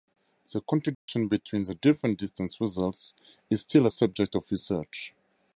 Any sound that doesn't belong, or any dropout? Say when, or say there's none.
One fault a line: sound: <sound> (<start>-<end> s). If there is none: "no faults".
sound: dropout (0.9-1.1 s)